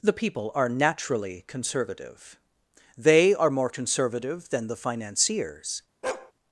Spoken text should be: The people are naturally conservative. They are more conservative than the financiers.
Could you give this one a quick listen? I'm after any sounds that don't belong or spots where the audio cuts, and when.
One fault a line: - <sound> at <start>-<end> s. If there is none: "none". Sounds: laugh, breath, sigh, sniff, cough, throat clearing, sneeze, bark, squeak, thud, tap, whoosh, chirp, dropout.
- bark at 6.0-6.3 s